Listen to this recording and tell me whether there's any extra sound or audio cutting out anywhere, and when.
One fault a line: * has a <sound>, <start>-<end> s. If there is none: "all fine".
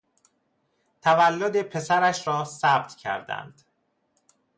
all fine